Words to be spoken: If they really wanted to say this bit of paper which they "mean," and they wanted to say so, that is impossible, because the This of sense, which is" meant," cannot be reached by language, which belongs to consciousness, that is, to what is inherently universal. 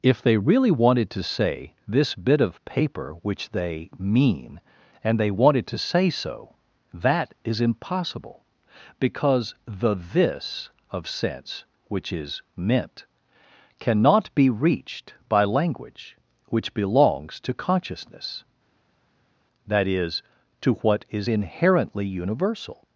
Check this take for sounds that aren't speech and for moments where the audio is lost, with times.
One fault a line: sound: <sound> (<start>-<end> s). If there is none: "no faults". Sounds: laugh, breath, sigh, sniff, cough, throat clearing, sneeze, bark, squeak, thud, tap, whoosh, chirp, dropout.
no faults